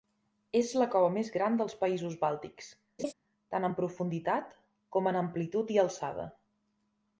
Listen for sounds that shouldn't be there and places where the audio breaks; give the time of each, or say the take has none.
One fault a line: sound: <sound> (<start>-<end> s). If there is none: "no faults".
sound: laugh (3.0-3.1 s)